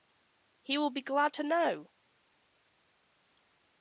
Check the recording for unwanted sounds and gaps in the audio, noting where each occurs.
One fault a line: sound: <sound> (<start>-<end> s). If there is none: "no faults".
no faults